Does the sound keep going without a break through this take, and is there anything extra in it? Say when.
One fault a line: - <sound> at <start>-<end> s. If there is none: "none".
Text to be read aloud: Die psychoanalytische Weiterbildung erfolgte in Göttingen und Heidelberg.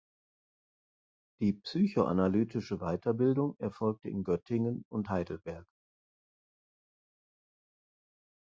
none